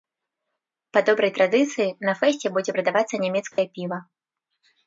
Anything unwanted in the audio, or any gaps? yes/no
yes